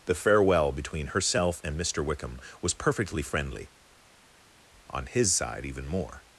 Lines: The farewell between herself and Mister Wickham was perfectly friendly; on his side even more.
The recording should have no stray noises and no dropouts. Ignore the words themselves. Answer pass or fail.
pass